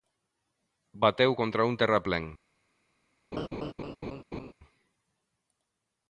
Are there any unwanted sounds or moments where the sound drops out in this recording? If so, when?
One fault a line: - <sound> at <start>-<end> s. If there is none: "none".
- laugh at 3.3-4.5 s